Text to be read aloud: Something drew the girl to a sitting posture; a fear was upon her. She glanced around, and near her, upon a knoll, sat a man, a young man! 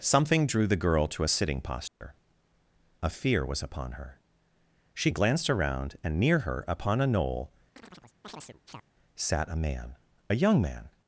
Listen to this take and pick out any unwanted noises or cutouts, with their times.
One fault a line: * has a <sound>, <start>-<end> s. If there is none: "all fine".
* has a dropout, 1.9-2.0 s
* has a chirp, 7.8-8.8 s